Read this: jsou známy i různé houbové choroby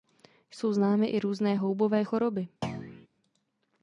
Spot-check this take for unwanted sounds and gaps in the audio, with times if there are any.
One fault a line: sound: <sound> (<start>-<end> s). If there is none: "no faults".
sound: thud (2.6-3.1 s)